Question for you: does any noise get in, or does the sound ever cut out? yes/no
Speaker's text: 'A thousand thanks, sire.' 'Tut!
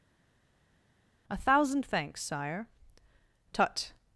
no